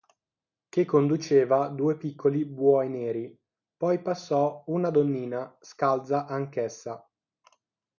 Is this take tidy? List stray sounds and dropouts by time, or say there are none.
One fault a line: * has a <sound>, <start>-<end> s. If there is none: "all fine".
all fine